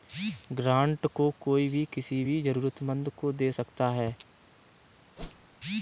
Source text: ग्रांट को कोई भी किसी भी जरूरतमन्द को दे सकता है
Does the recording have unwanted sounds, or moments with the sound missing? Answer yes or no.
yes